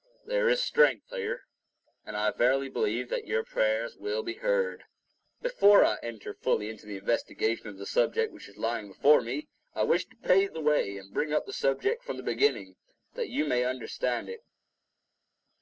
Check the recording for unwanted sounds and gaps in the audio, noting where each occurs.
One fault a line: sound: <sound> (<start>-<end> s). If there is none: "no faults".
no faults